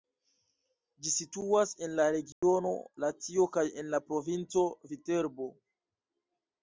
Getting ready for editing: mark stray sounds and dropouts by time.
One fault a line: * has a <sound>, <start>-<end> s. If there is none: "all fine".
* has a dropout, 2.3-2.4 s